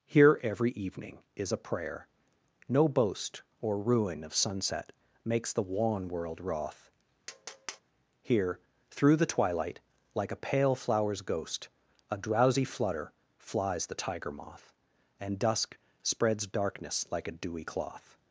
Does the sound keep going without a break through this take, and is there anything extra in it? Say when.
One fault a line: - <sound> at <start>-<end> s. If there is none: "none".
- tap at 7.3-7.8 s